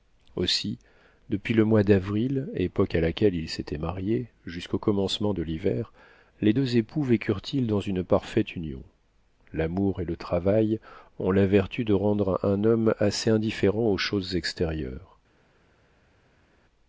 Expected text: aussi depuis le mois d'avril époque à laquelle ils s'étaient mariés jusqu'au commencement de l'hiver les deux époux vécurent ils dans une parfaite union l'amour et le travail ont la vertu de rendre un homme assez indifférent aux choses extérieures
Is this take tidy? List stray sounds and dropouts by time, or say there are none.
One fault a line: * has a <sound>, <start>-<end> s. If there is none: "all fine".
all fine